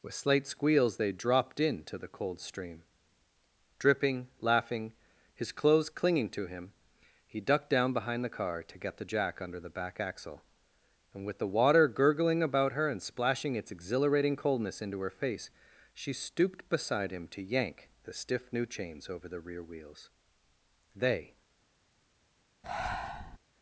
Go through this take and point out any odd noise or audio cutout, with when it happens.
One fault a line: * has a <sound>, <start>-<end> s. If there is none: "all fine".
* has a breath, 22.6-23.4 s